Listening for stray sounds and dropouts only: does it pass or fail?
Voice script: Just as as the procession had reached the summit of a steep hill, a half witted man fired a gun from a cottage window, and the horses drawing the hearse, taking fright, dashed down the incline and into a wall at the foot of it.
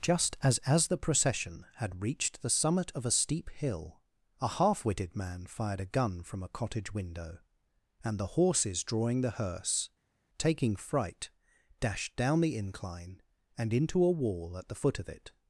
pass